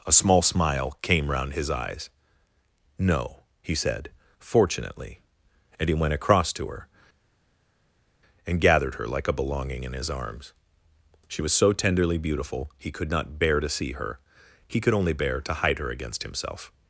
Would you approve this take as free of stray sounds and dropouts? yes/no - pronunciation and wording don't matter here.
yes